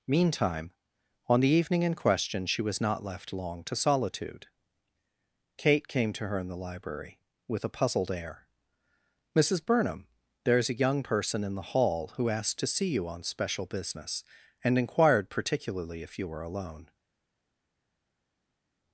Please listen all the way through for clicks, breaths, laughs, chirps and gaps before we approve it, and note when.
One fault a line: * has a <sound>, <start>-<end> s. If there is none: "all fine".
all fine